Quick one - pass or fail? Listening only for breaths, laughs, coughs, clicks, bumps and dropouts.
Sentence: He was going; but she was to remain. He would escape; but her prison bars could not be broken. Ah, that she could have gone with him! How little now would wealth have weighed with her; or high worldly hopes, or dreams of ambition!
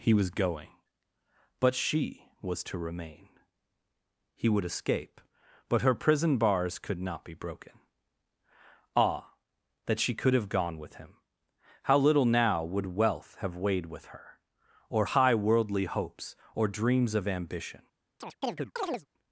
fail